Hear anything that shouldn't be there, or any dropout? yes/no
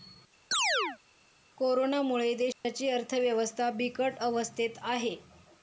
yes